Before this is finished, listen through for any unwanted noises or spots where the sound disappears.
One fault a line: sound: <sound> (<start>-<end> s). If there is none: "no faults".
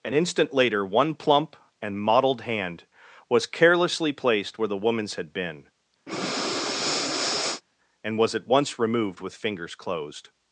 sound: breath (6.1-7.6 s)